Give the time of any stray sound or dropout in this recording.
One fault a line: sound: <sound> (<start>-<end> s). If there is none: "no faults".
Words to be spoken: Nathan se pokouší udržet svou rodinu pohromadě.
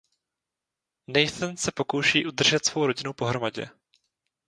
no faults